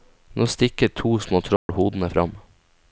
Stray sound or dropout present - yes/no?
yes